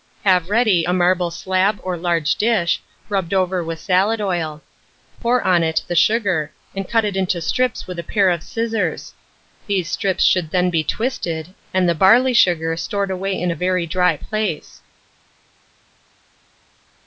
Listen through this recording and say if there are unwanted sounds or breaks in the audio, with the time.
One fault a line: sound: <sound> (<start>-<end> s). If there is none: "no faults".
no faults